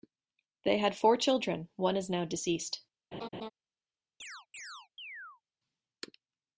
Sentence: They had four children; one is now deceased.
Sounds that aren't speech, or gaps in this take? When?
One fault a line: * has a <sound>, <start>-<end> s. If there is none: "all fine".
* has a laugh, 3.1-3.5 s
* has a chirp, 4.2-5.4 s